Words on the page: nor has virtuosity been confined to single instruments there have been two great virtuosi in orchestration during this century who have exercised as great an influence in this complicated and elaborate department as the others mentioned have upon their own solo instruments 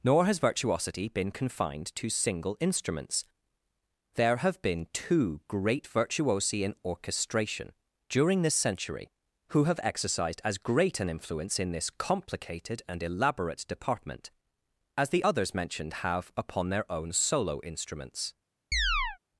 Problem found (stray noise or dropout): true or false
true